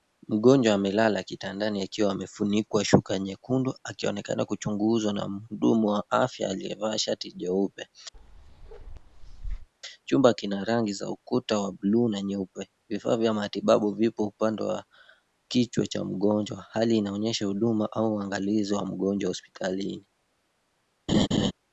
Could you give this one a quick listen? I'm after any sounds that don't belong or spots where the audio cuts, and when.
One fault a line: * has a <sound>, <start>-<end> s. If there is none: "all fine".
* has a bark, 8.1-9.7 s
* has a laugh, 21.1-21.5 s